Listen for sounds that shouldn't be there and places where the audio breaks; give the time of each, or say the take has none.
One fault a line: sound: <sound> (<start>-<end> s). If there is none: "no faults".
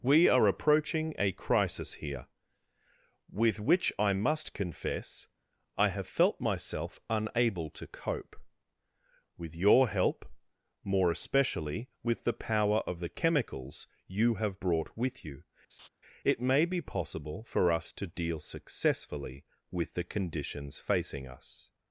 sound: laugh (15.7-15.9 s)